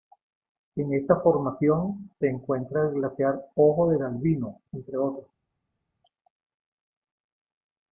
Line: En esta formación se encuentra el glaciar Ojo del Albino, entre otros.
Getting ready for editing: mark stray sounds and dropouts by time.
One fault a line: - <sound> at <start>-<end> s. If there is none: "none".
none